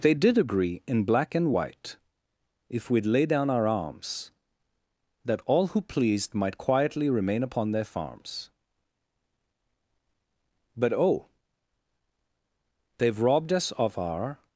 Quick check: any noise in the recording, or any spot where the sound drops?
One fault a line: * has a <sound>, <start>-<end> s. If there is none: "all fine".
all fine